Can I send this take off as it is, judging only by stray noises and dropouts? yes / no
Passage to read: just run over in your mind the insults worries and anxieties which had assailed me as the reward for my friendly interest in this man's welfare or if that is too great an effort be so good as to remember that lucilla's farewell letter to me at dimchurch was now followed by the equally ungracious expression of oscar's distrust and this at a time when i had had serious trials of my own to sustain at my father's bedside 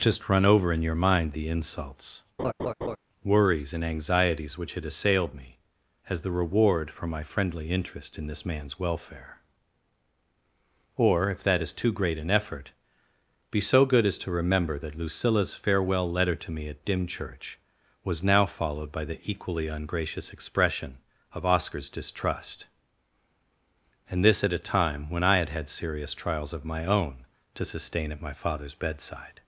no